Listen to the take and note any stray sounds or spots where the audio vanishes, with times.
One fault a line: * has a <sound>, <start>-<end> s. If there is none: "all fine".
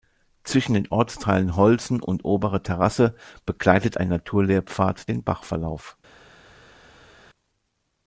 all fine